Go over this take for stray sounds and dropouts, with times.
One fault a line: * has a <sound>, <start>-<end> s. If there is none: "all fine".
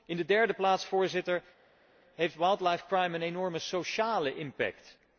all fine